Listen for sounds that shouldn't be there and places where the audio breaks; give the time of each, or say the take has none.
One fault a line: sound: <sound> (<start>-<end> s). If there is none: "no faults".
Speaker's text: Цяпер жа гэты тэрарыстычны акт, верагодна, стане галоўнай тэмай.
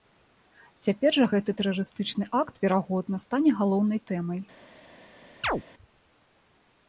sound: chirp (5.4-5.6 s)